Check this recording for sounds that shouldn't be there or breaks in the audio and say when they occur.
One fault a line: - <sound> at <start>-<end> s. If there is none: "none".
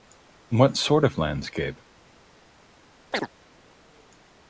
- chirp at 3.1-3.3 s